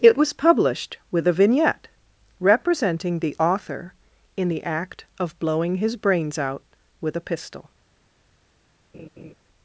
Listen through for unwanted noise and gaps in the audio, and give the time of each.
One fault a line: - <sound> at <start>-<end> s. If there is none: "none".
- laugh at 8.9-9.3 s